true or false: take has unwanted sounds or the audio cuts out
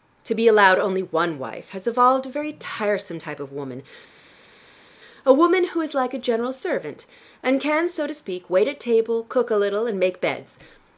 false